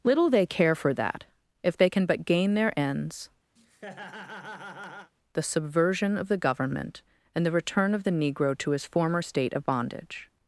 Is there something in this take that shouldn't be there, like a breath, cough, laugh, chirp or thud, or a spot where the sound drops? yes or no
yes